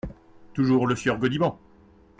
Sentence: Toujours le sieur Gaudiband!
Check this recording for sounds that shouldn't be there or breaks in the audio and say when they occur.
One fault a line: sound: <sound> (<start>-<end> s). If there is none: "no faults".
no faults